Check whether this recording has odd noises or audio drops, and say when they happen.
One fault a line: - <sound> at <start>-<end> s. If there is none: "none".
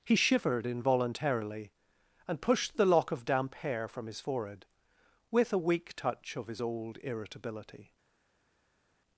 none